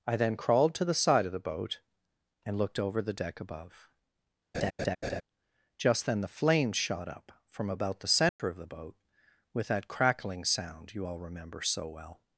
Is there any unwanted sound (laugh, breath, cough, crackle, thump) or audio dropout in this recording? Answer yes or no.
yes